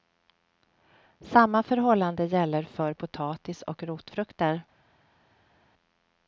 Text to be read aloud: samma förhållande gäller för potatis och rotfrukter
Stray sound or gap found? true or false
false